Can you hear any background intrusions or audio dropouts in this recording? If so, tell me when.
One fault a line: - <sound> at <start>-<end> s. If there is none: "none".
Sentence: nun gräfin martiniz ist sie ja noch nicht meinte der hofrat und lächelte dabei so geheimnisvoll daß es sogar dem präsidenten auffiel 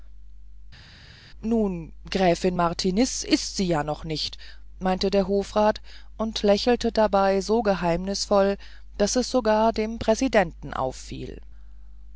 none